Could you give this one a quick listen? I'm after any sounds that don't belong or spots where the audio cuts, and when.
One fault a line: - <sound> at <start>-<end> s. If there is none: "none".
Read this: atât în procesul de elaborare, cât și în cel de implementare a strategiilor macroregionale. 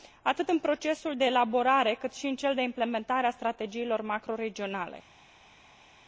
none